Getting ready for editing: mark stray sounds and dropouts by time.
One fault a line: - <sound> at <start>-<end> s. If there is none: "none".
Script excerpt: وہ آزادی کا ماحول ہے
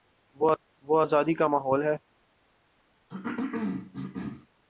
- cough at 3.1-4.5 s